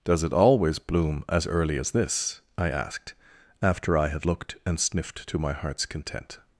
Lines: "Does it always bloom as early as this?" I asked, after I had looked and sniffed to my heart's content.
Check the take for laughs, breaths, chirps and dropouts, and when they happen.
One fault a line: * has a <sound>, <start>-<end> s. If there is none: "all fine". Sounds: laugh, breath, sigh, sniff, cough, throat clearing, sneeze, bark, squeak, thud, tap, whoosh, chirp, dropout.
all fine